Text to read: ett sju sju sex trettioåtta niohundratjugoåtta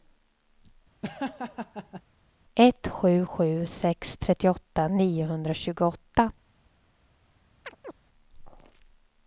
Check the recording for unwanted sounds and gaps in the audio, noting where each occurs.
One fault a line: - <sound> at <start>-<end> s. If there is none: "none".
- laugh at 1.0-2.0 s
- chirp at 7.6-7.9 s